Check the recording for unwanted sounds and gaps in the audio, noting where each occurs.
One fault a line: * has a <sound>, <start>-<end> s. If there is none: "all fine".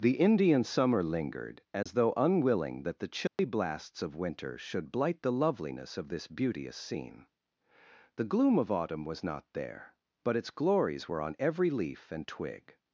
* has a dropout, 1.8-1.9 s
* has a dropout, 3.3-3.4 s